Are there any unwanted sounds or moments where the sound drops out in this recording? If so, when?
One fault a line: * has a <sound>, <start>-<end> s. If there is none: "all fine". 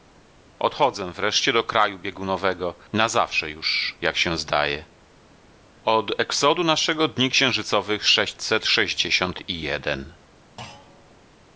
* has a thud, 10.6-11.2 s